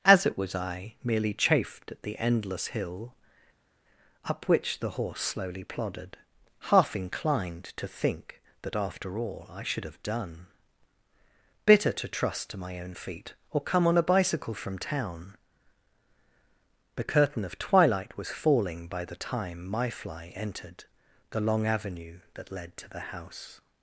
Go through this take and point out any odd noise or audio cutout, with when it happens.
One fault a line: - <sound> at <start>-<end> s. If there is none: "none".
none